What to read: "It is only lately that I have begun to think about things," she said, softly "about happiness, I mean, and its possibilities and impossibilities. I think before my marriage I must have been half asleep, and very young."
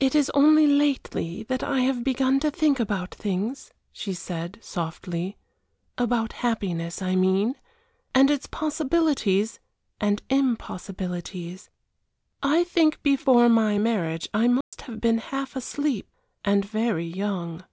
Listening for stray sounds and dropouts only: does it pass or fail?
fail